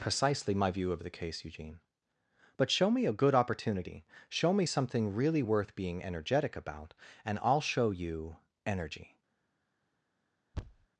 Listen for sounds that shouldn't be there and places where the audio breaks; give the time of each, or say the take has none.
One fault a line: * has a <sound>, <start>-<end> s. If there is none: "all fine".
* has a thud, 10.5-10.9 s